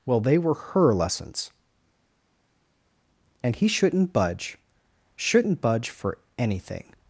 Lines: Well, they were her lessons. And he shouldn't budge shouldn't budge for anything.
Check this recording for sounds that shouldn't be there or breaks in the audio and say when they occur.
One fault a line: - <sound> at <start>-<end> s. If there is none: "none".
none